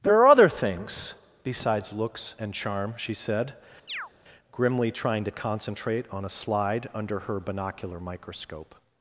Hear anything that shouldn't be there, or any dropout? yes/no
yes